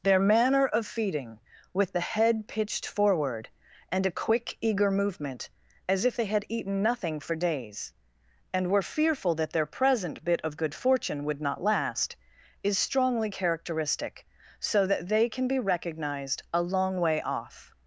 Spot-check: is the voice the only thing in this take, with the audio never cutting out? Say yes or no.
yes